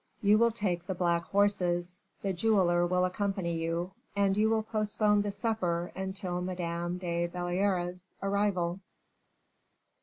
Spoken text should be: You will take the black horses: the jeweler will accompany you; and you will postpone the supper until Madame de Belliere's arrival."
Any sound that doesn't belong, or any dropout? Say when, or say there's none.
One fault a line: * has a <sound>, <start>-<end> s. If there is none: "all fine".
all fine